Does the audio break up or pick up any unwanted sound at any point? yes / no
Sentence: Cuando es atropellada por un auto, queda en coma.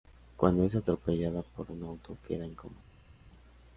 no